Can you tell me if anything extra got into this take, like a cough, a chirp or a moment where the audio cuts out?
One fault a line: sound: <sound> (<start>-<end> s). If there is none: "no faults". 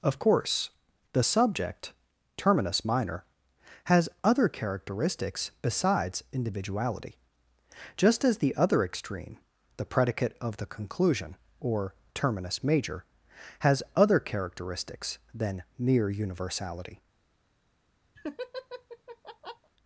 sound: laugh (18.2-19.7 s)